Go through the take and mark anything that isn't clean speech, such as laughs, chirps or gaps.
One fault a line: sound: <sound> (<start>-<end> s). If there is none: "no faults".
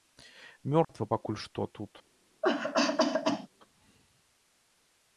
sound: dropout (0.8-0.9 s)
sound: cough (2.4-3.5 s)